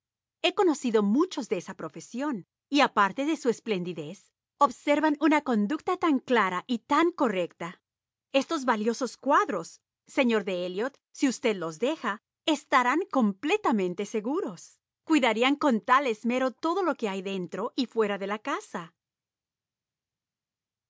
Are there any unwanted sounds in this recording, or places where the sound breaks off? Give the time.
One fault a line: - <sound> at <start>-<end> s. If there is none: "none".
none